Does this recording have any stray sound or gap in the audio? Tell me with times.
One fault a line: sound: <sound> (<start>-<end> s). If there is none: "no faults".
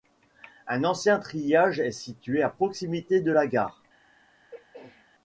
sound: throat clearing (4.5-5.1 s)